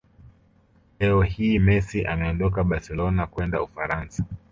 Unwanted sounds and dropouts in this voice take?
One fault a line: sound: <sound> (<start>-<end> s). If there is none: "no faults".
no faults